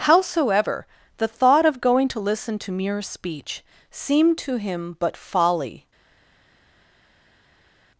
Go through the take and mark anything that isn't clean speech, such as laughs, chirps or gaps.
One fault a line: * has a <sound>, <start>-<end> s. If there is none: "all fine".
all fine